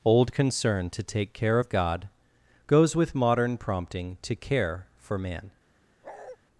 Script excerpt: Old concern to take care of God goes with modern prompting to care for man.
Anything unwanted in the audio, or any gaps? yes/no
yes